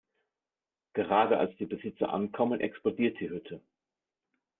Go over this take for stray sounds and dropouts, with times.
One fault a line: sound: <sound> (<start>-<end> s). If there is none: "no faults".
no faults